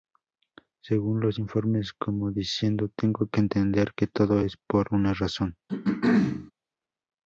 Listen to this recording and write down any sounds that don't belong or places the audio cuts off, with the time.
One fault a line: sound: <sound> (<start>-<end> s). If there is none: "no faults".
sound: throat clearing (5.7-6.5 s)